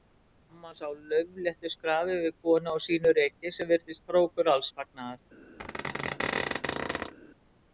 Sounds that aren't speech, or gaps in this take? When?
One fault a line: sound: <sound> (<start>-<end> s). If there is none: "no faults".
sound: squeak (5.6-7.1 s)